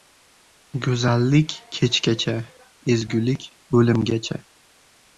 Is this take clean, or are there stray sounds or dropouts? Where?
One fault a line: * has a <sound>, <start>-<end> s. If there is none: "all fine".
all fine